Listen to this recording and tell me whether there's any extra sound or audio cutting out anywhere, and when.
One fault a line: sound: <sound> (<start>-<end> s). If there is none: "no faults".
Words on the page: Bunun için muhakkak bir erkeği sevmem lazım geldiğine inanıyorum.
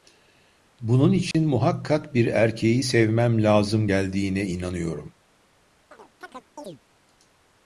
sound: dropout (1.3-1.3 s)
sound: chirp (5.9-6.8 s)